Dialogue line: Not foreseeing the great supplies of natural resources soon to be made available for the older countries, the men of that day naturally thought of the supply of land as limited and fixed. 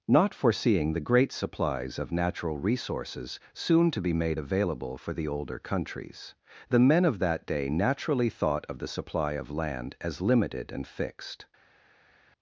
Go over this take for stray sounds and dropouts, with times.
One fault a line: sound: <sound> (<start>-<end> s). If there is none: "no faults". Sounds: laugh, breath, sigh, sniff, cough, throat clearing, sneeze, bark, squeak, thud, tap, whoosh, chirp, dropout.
no faults